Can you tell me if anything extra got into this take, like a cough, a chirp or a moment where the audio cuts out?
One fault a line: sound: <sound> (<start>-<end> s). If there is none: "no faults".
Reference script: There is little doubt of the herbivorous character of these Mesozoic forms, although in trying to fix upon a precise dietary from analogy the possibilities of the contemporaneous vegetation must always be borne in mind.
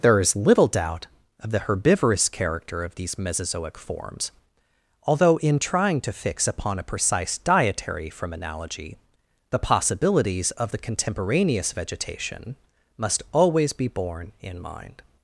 no faults